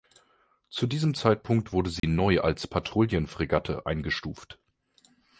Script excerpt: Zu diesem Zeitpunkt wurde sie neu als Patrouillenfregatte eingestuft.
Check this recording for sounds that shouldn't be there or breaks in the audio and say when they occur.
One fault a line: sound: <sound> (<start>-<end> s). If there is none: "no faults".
sound: dropout (2.0-2.0 s)